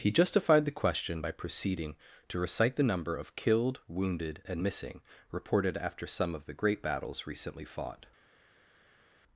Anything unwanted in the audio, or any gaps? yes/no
no